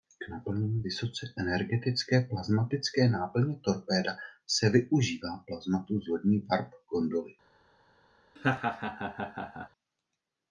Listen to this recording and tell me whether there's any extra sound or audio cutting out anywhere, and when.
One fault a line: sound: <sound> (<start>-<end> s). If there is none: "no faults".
sound: laugh (8.4-9.7 s)